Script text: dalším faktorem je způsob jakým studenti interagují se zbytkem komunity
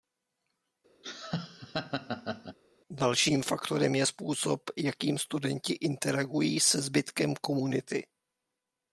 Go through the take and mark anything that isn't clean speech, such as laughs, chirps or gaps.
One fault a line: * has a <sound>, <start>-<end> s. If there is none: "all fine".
* has a laugh, 1.0-2.6 s